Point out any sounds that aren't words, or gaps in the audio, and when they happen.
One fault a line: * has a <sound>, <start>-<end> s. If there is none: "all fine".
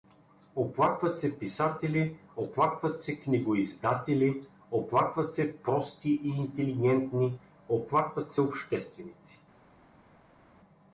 all fine